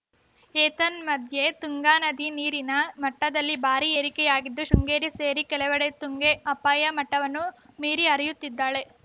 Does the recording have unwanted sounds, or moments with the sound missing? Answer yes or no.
no